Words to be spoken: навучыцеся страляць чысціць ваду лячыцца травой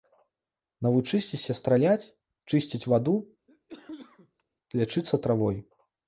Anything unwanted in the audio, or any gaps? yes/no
yes